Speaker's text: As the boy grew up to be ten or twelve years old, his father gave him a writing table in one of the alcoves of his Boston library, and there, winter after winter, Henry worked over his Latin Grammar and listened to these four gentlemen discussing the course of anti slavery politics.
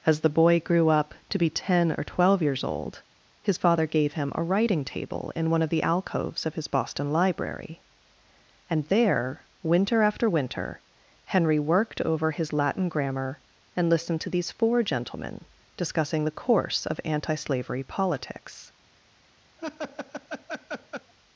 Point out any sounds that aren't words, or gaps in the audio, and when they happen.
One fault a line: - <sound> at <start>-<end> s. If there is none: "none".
- laugh at 19.6-21.1 s